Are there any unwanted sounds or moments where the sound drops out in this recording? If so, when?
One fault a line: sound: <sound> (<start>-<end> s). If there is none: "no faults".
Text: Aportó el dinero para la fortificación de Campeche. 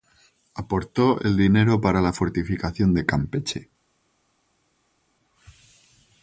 no faults